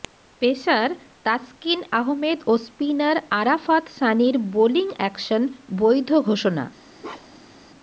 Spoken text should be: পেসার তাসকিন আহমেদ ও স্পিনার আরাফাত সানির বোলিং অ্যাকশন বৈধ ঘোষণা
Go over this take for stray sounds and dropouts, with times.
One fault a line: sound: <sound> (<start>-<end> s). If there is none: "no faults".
sound: bark (7.0-7.6 s)